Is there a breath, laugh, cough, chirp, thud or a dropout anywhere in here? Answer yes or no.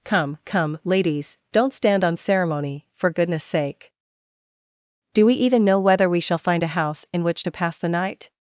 no